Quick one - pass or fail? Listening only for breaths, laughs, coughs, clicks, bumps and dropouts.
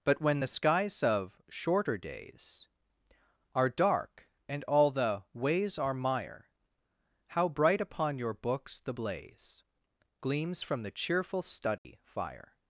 fail